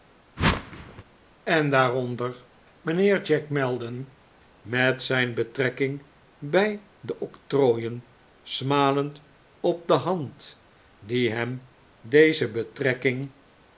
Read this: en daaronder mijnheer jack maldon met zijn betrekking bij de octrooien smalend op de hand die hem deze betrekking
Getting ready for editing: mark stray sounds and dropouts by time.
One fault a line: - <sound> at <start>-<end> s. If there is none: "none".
- whoosh at 0.4-1.0 s